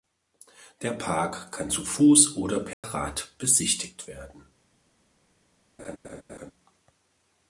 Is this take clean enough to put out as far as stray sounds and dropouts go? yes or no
no